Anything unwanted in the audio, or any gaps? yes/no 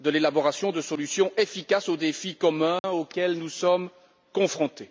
yes